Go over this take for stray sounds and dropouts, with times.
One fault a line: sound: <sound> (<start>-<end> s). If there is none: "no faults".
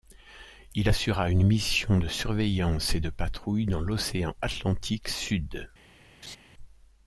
sound: laugh (6.2-6.4 s)